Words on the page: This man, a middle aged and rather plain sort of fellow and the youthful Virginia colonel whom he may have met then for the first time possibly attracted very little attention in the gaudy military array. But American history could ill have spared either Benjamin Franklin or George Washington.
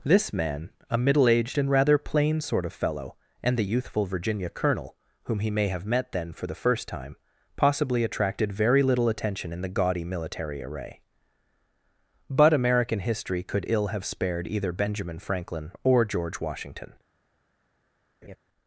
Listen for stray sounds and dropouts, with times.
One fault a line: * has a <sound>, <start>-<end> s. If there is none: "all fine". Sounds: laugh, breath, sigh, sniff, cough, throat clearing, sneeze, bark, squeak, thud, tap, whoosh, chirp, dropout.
* has a laugh, 18.2-18.4 s